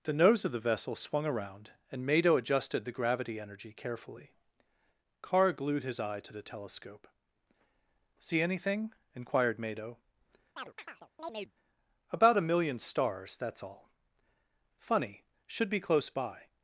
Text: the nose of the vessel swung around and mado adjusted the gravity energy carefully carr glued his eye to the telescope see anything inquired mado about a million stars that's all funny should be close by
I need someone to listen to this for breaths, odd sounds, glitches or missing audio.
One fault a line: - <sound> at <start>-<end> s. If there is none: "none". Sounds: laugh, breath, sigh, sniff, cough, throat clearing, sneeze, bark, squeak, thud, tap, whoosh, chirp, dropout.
- chirp at 10.6-11.5 s